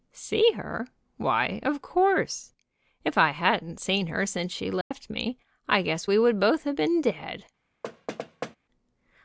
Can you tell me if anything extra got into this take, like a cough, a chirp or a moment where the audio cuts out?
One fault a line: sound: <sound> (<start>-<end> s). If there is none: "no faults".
sound: dropout (4.8-4.9 s)
sound: thud (7.8-8.6 s)